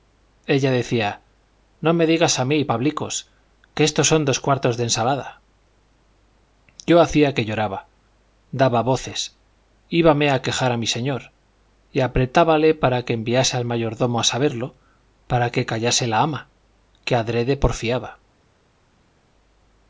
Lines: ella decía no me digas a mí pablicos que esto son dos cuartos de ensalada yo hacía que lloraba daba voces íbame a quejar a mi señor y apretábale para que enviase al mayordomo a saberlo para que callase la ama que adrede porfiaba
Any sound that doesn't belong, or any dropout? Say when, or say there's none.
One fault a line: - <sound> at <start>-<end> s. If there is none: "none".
none